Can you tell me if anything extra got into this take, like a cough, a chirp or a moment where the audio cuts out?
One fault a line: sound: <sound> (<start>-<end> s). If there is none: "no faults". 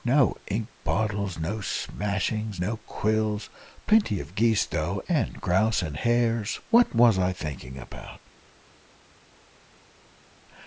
no faults